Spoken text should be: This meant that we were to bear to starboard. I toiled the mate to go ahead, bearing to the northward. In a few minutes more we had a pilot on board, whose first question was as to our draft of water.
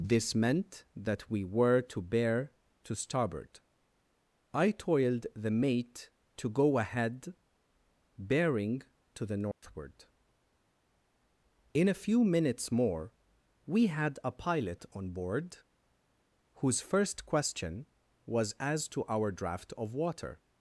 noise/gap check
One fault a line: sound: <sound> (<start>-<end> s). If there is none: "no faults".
sound: dropout (9.5-9.6 s)